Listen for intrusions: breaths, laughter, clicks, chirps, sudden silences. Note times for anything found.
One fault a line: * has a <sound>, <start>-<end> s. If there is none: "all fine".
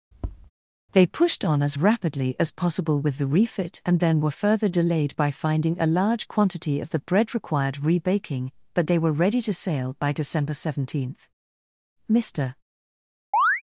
* has a tap, 0.1-0.5 s
* has a chirp, 13.3-13.6 s